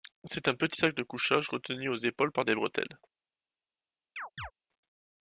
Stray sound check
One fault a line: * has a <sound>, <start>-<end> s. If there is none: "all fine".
* has a chirp, 4.2-4.5 s